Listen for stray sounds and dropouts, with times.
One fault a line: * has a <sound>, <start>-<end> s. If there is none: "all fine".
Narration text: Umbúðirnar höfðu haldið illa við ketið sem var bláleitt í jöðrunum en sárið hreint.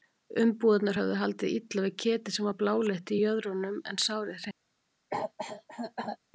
* has a cough, 5.1-6.2 s